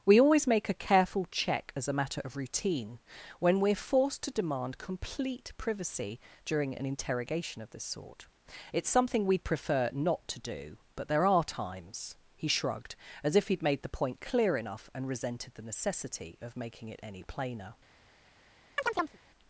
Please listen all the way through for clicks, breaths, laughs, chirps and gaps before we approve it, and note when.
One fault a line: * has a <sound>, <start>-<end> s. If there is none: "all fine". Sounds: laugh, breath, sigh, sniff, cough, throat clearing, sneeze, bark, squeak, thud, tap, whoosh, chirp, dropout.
* has a chirp, 18.8-19.2 s